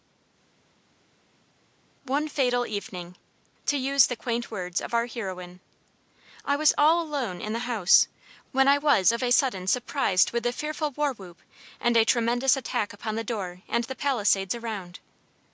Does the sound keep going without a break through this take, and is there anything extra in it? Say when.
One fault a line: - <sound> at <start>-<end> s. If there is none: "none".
none